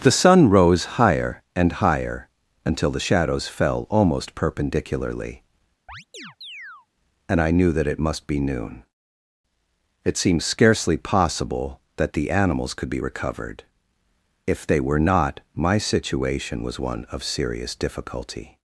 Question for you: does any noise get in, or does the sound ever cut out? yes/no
yes